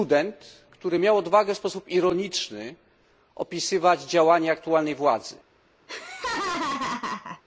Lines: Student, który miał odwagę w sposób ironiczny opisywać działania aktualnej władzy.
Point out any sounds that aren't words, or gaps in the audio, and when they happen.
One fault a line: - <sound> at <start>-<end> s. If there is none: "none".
- laugh at 5.9-7.4 s